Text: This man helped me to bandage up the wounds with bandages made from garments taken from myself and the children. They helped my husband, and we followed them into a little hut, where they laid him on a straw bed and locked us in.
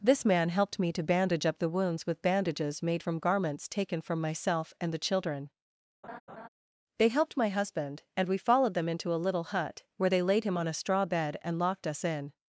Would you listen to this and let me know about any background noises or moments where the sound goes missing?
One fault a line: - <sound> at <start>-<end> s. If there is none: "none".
- laugh at 6.0-6.5 s